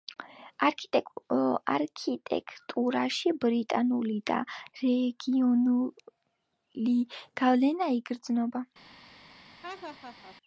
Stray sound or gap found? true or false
true